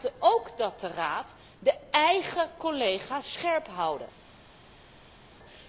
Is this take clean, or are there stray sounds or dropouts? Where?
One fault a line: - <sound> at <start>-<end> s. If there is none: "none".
none